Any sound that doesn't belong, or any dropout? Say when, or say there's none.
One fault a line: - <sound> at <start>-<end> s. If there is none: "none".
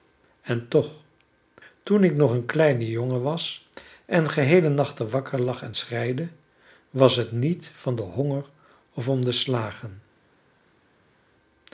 none